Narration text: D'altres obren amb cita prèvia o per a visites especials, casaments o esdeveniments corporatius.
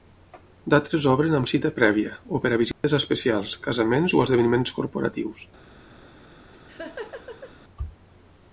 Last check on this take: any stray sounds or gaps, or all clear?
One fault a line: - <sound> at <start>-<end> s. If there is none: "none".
- dropout at 2.7-2.8 s
- laugh at 6.5-7.5 s